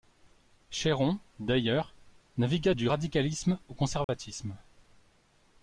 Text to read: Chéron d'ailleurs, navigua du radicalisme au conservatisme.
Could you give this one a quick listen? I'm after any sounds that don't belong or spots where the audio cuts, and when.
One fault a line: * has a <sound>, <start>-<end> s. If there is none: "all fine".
* has a dropout, 4.0-4.1 s